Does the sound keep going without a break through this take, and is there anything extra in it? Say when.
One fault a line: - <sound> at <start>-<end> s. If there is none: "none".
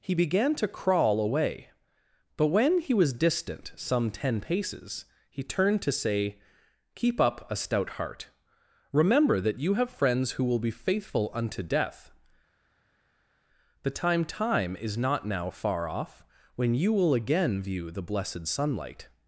none